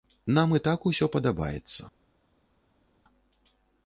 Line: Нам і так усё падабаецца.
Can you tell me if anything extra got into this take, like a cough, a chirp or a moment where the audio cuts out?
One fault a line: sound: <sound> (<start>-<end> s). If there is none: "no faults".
no faults